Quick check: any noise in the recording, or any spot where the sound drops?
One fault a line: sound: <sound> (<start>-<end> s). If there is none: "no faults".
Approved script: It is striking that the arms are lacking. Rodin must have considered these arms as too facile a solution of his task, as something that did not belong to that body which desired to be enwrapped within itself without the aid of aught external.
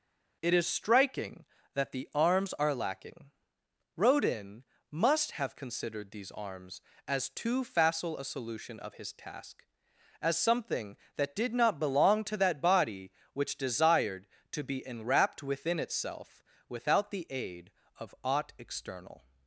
no faults